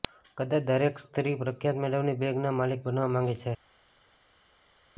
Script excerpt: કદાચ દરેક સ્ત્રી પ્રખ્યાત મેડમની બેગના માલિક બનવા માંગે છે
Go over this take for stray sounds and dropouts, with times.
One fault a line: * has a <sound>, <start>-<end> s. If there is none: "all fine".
all fine